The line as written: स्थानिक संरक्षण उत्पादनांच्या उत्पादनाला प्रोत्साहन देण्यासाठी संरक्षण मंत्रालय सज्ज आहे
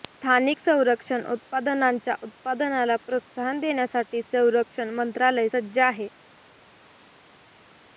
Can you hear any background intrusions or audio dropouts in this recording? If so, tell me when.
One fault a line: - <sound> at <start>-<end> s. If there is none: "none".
none